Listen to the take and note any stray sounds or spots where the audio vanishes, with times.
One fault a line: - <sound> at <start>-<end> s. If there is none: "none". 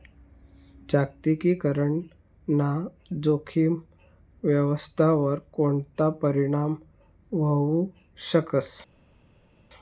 none